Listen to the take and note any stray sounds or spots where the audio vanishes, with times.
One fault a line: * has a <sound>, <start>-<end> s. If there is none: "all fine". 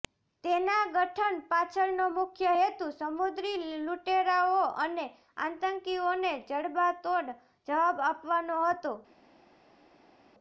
all fine